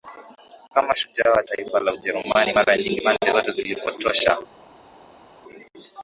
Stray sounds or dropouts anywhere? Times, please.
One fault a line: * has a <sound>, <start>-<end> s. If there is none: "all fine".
all fine